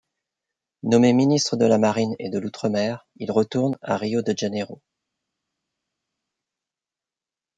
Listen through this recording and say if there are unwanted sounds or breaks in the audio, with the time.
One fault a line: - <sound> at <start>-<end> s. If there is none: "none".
none